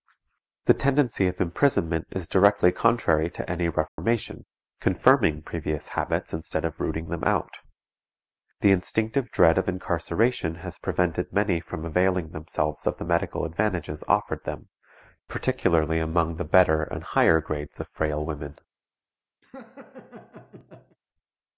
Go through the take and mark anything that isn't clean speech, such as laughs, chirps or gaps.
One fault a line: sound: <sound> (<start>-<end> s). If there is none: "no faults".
sound: dropout (3.9-4.0 s)
sound: laugh (19.4-21.0 s)